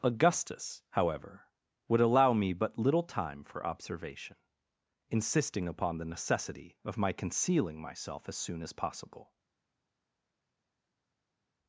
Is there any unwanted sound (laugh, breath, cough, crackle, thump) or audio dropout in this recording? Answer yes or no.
no